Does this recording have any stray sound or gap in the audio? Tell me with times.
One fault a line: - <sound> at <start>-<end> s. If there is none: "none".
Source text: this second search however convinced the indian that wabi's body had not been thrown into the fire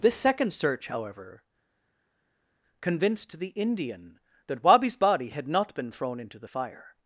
none